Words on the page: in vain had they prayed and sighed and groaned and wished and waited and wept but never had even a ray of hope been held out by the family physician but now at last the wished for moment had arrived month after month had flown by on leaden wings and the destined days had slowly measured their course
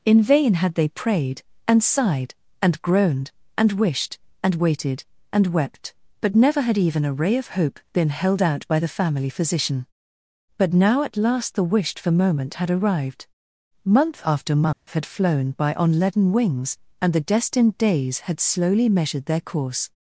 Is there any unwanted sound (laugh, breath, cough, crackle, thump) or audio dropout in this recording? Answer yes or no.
yes